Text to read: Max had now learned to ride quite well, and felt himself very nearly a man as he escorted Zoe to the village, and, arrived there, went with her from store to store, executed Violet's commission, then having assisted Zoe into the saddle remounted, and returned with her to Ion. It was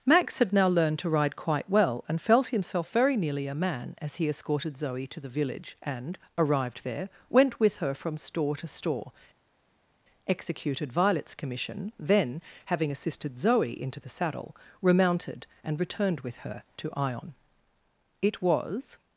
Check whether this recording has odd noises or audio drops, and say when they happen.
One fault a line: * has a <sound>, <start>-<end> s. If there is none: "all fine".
all fine